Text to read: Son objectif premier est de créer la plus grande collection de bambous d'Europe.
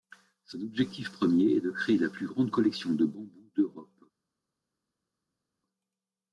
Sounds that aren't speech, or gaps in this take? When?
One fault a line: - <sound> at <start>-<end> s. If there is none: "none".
none